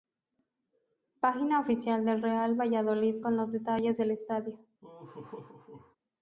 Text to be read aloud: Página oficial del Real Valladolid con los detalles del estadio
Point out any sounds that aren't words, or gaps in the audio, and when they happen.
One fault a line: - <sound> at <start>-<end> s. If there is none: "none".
- laugh at 4.8-6.0 s